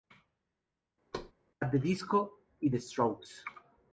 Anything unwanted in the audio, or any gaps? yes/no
yes